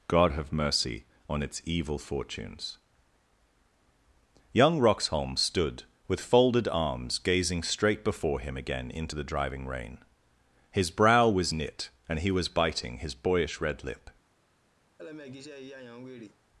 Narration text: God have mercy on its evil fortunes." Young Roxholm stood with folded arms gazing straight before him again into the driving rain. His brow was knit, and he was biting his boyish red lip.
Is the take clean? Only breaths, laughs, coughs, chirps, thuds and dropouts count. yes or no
no